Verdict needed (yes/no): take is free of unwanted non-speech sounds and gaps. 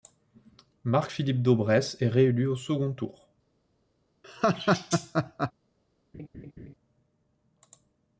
no